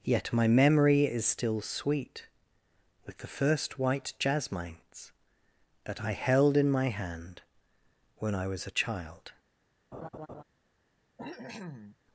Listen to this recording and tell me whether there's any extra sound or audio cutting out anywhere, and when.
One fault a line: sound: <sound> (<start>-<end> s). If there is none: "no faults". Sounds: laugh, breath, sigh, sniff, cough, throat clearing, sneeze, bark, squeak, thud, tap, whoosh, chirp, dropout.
sound: laugh (9.9-10.4 s)
sound: cough (11.2-12.0 s)